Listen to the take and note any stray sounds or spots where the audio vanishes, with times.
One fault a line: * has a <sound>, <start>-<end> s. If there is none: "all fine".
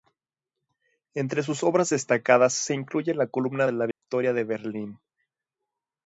* has a dropout, 3.9-4.0 s